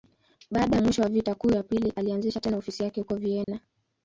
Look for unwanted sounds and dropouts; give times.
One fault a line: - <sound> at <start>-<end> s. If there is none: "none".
- dropout at 3.4-3.5 s